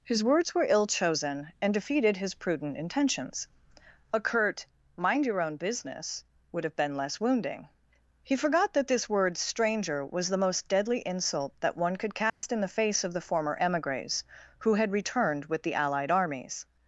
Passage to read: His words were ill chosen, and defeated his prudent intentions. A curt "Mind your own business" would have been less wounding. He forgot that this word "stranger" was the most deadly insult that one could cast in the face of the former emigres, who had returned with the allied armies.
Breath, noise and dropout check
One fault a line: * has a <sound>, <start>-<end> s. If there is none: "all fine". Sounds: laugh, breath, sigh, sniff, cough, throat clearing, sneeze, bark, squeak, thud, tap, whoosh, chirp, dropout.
* has a dropout, 12.3-12.4 s